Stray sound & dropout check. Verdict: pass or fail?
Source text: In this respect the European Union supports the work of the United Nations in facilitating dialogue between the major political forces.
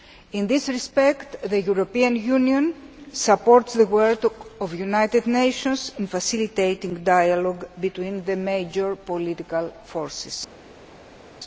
pass